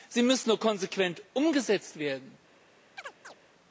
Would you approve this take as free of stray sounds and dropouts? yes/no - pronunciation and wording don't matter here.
no